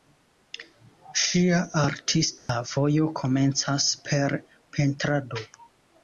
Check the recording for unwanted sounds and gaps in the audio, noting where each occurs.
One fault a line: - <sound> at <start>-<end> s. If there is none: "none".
- dropout at 2.4-2.5 s